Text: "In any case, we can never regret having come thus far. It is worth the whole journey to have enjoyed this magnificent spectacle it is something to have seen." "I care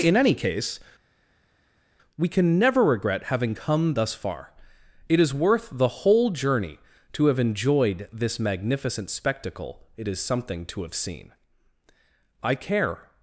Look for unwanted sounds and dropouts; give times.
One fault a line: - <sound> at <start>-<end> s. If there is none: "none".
none